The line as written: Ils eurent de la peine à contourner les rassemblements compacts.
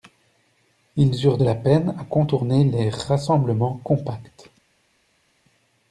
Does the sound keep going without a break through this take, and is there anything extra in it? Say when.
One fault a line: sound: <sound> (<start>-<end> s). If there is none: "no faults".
no faults